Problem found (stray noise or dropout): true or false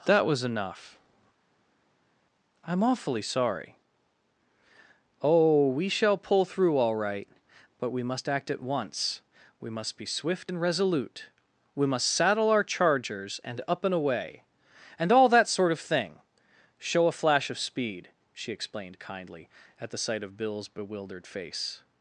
false